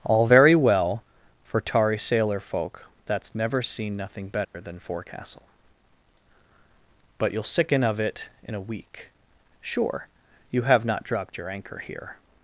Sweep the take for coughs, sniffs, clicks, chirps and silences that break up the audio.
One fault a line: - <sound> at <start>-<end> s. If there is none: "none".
- dropout at 4.4-4.5 s